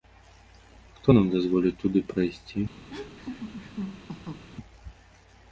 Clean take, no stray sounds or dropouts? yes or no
no